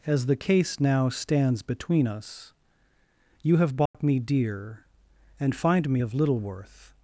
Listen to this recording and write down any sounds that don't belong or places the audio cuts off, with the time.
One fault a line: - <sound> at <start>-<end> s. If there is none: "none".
- dropout at 3.9-3.9 s